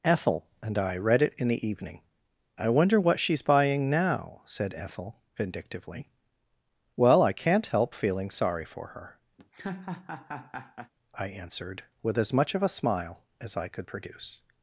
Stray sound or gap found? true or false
true